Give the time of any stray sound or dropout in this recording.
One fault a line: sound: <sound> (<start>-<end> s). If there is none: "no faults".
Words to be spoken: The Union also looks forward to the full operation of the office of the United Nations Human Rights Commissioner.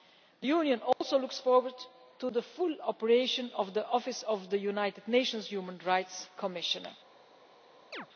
sound: dropout (0.9-1.0 s)
sound: chirp (7.9-8.1 s)